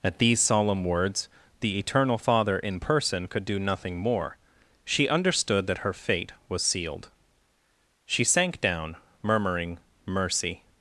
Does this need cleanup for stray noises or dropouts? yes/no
no